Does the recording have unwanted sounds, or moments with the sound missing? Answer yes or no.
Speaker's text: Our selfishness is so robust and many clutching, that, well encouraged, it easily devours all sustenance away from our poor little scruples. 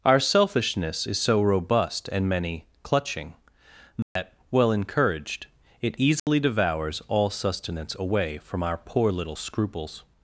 yes